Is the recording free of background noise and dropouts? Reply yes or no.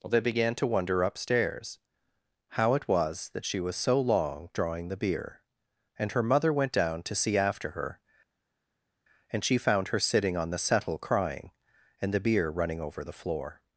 yes